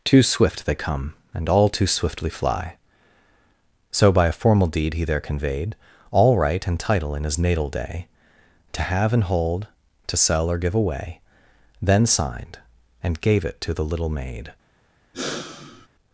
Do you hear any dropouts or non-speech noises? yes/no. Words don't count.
yes